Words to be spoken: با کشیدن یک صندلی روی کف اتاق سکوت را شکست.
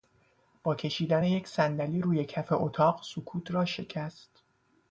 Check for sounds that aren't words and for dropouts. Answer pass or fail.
pass